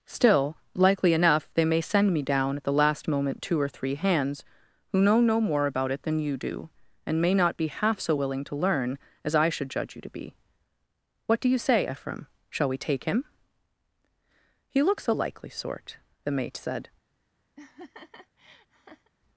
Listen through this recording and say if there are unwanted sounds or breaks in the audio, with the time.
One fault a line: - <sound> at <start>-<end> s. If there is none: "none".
- laugh at 17.6-19.1 s